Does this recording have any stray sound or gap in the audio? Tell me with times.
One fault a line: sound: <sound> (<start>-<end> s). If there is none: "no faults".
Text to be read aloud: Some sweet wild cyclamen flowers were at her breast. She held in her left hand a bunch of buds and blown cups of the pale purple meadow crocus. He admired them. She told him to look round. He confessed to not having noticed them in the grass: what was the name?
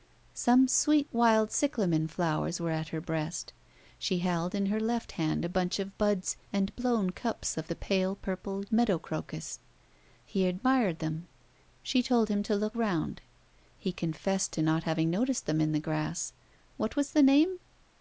no faults